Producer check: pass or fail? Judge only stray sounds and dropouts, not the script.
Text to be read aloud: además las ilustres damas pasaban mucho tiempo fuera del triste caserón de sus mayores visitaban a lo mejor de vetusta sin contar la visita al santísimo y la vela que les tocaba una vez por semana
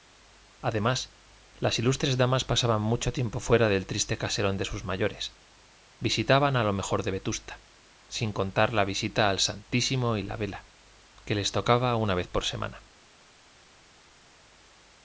pass